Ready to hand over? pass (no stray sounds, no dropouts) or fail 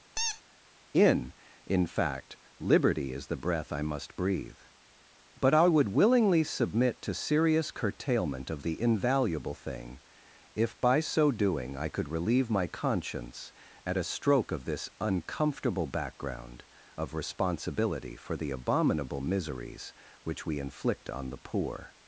fail